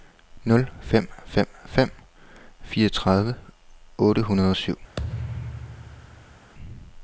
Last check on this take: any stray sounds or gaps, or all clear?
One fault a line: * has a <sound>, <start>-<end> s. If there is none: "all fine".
* has a thud, 5.0-6.5 s